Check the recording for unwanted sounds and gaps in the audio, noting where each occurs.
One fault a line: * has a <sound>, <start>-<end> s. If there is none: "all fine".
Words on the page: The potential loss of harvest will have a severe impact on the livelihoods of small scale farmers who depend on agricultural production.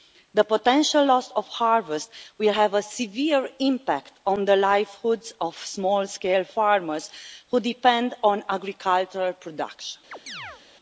* has a chirp, 10.1-10.6 s